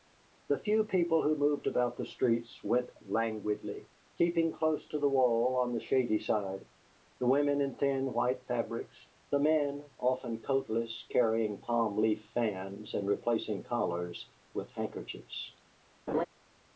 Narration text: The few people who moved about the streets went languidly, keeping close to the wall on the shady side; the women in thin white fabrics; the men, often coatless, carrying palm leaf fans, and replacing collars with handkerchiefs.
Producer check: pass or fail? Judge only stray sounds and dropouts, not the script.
fail